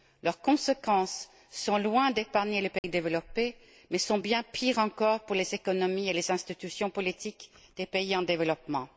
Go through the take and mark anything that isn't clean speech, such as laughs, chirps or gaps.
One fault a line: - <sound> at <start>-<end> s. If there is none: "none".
- dropout at 2.8-2.8 s